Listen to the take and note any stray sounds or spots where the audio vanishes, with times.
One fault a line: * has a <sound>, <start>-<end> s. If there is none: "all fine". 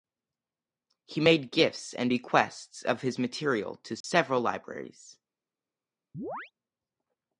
* has a dropout, 4.0-4.0 s
* has a chirp, 6.1-6.5 s